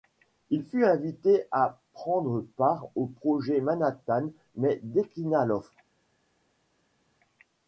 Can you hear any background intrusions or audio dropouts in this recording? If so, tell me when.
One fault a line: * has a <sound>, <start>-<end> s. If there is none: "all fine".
all fine